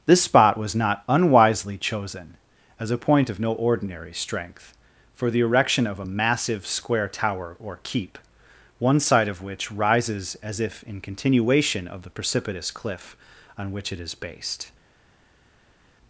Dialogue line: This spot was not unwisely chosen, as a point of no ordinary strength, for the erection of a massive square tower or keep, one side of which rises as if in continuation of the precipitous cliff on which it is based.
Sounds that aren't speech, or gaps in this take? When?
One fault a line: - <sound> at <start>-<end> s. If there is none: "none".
none